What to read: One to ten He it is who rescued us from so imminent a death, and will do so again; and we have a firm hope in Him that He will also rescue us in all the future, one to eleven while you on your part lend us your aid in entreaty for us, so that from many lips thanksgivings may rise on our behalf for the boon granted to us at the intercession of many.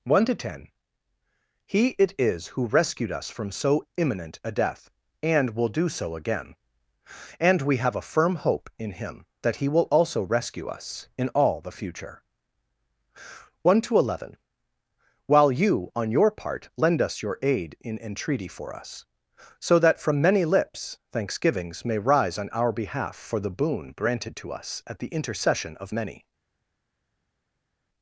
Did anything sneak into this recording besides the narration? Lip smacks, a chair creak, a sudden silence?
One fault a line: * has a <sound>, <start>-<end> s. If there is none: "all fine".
all fine